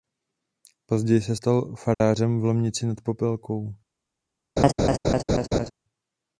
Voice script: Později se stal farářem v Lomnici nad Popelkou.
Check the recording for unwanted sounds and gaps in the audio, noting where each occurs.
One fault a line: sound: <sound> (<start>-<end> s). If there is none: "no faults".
sound: dropout (1.9-2.0 s)
sound: laugh (4.6-5.7 s)